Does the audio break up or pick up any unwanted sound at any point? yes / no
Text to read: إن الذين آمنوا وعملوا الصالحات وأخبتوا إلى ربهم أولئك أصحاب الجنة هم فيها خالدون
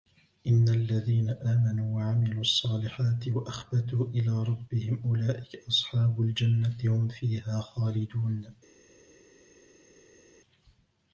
no